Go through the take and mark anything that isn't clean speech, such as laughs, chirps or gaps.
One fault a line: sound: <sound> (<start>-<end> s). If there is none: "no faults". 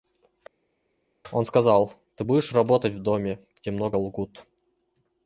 no faults